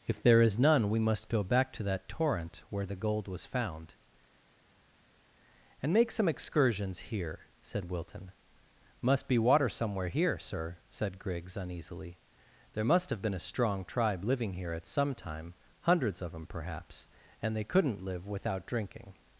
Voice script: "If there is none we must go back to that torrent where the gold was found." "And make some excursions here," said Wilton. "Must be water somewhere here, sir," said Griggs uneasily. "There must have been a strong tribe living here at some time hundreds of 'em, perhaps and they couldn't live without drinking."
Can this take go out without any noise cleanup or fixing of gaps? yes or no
yes